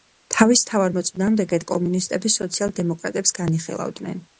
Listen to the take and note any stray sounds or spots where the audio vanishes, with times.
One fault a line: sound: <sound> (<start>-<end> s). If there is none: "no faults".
no faults